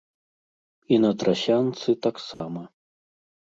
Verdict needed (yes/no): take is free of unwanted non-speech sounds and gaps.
no